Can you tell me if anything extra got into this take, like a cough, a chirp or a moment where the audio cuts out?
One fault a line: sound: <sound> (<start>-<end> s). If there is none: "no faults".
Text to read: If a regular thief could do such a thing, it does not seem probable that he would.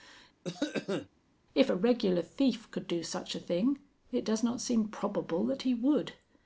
sound: cough (0.4-1.1 s)